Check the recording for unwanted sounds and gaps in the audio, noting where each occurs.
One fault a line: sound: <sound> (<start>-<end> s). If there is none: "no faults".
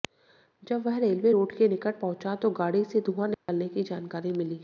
sound: dropout (3.3-3.5 s)